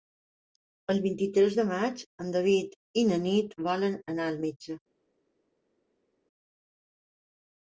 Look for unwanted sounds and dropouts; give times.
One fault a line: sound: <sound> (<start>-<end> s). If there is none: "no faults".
no faults